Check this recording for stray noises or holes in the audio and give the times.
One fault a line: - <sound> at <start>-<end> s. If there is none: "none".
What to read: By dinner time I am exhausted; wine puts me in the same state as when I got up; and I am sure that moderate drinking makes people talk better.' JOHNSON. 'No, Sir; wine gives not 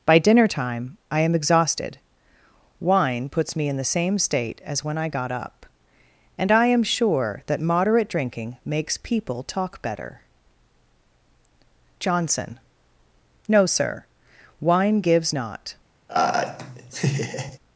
- laugh at 16.1-17.6 s